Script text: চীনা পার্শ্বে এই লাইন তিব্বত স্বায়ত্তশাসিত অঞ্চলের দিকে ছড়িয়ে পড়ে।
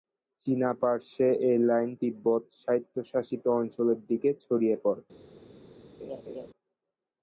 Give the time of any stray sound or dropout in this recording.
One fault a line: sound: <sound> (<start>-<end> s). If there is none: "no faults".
sound: laugh (6.0-6.5 s)